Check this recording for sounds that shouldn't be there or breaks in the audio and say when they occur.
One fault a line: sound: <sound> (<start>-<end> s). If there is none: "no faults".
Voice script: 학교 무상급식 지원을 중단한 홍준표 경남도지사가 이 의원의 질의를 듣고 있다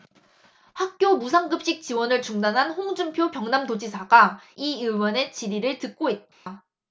sound: dropout (6.3-6.5 s)